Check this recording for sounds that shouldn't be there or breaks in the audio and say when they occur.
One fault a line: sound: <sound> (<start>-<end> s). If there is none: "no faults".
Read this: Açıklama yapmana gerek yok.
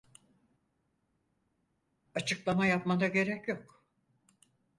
no faults